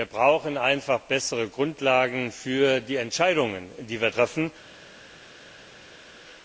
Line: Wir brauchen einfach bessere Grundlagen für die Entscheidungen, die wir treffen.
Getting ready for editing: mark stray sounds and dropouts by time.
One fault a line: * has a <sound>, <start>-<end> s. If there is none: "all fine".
all fine